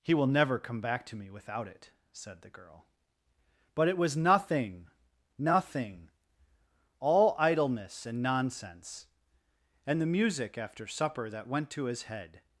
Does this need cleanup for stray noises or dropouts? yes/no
no